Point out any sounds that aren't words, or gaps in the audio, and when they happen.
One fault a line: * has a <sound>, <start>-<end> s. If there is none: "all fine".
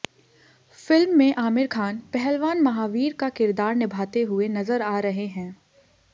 all fine